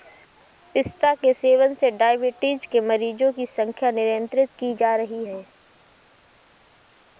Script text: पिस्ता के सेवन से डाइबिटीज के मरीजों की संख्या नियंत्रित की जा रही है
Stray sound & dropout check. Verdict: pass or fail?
pass